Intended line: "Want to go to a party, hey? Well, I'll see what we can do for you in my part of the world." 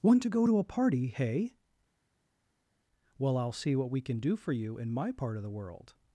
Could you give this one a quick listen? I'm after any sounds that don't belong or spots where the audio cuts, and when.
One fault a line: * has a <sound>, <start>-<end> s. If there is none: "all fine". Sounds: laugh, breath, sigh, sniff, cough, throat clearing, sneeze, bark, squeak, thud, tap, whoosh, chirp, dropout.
all fine